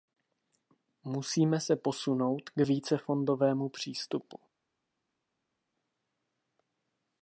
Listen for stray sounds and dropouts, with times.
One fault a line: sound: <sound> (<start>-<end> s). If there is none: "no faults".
no faults